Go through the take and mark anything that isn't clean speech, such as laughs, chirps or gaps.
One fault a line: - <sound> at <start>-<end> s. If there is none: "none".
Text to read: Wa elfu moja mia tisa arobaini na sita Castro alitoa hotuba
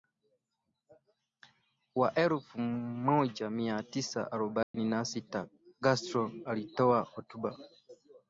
- dropout at 4.6-4.7 s